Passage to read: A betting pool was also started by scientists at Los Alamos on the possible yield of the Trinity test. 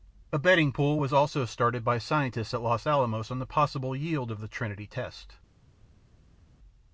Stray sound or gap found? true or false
false